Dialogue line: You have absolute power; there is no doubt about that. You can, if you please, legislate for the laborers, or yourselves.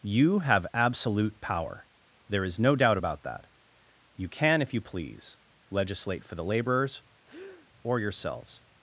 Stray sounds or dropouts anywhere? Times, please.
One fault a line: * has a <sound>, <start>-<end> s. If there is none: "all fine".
* has a breath, 7.3-7.7 s